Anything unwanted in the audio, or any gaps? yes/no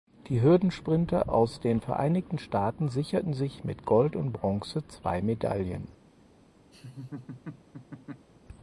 yes